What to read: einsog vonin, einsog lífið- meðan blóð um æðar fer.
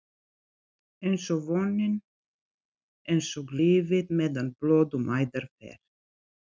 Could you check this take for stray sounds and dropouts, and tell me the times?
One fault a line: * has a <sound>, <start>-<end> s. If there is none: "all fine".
all fine